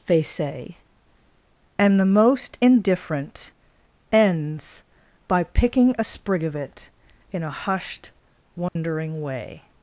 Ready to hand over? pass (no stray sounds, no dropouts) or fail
fail